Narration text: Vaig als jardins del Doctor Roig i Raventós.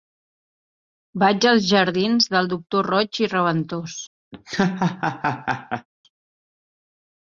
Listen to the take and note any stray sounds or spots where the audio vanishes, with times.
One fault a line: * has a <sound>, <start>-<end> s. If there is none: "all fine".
* has a laugh, 4.3-5.9 s